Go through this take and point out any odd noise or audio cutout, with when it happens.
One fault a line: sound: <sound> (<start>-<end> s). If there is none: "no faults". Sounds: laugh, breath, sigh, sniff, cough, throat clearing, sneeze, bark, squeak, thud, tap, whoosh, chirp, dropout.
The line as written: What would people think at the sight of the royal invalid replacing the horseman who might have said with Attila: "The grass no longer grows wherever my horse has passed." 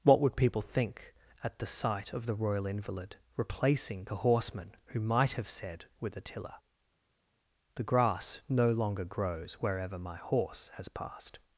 no faults